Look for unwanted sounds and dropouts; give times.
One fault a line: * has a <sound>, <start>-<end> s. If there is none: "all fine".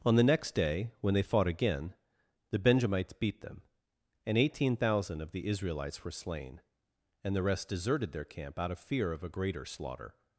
all fine